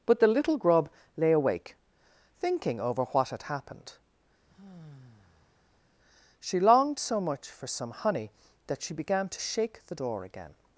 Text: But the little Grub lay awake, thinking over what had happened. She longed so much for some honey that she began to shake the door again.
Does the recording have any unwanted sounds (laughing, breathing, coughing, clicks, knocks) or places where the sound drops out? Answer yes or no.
yes